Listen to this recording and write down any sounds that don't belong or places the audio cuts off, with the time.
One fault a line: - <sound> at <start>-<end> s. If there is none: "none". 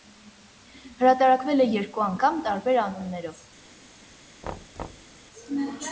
- thud at 4.4-5.2 s